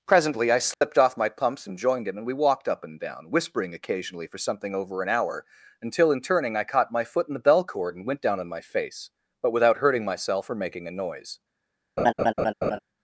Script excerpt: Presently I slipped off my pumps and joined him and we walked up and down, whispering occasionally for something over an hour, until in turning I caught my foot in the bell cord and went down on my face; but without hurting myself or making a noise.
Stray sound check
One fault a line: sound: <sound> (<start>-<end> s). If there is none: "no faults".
sound: dropout (0.7-0.8 s)
sound: laugh (12.0-12.8 s)